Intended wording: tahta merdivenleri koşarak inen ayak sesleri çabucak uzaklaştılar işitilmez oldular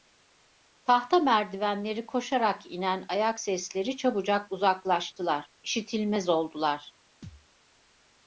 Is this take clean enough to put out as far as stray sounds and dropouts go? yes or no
no